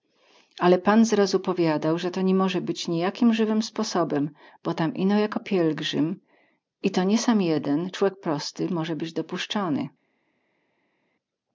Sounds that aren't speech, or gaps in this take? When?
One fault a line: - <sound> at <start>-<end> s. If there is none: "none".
none